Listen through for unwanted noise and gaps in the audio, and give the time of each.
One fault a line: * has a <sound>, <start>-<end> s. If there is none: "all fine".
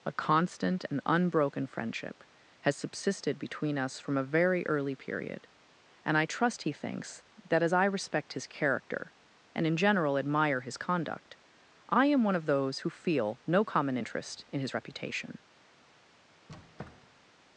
* has a squeak, 16.5-17.3 s